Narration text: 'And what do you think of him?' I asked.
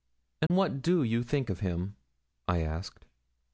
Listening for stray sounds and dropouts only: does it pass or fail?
fail